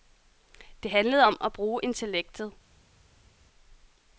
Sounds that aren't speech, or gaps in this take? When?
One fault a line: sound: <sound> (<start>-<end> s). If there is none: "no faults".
no faults